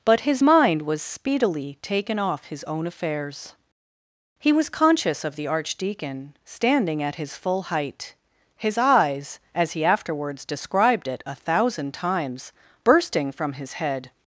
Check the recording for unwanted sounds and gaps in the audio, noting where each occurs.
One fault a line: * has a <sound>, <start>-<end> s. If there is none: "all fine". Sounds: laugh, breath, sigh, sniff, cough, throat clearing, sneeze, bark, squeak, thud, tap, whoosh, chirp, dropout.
all fine